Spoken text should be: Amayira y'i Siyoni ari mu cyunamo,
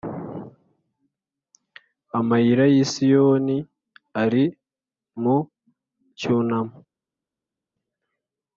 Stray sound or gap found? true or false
false